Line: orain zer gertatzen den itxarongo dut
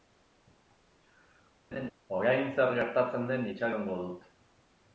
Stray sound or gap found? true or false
true